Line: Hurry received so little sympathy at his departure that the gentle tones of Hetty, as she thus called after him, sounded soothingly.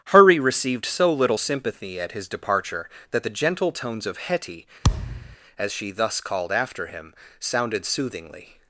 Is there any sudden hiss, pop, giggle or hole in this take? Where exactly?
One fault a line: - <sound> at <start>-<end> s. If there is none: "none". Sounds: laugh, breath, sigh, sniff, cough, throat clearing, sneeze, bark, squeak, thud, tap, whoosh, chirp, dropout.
- thud at 4.8-5.4 s